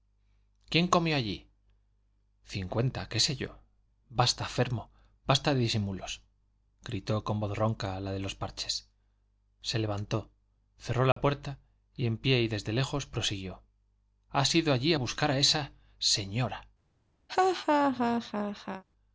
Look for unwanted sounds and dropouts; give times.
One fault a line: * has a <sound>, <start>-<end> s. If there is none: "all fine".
* has a dropout, 11.1-11.2 s
* has a laugh, 17.3-18.8 s